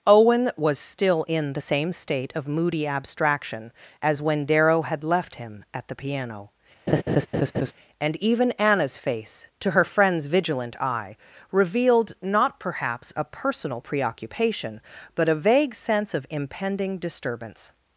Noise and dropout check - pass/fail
fail